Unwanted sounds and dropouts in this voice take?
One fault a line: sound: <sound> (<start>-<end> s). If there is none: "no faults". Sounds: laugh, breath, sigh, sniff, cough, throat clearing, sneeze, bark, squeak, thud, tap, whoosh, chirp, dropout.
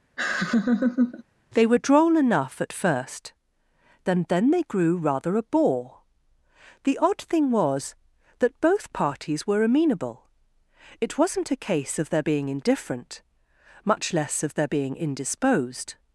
sound: laugh (0.2-1.2 s)